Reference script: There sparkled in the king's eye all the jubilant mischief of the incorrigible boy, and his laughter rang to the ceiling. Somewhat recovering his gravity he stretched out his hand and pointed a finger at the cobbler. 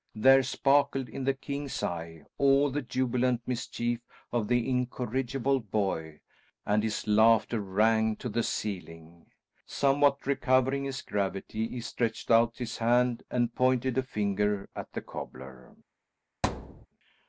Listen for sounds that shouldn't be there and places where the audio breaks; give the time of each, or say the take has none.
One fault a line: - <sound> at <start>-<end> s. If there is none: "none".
- thud at 16.4-16.9 s